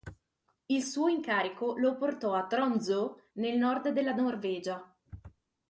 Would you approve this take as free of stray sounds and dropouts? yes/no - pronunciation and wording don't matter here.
yes